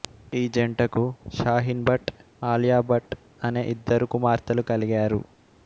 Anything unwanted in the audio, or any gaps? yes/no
no